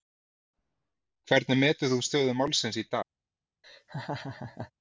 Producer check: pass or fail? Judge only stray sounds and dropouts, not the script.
fail